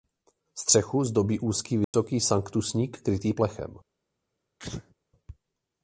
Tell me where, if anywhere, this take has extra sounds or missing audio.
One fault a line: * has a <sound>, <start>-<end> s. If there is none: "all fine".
* has a dropout, 1.8-1.9 s
* has a sneeze, 4.6-4.9 s